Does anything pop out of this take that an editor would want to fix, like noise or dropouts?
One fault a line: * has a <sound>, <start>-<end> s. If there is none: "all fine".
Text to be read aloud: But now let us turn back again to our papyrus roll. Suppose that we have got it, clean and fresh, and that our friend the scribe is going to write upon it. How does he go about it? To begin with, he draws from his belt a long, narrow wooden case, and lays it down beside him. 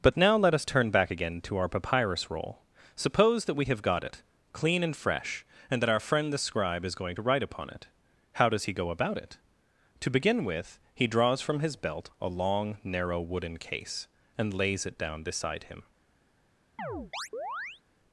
* has a chirp, 16.8-17.8 s